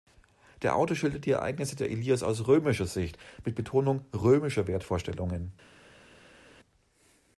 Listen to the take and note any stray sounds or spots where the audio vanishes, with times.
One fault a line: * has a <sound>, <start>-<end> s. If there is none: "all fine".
all fine